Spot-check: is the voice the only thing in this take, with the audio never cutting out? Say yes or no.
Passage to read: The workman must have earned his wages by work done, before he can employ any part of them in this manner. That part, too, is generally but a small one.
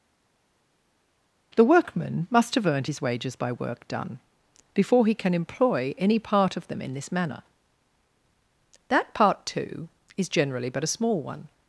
yes